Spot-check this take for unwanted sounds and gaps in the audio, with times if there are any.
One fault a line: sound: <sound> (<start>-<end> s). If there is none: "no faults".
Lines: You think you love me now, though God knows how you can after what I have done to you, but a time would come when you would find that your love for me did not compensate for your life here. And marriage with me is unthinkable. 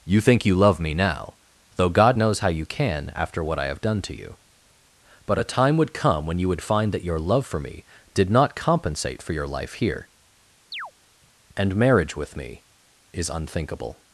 sound: chirp (10.7-10.9 s)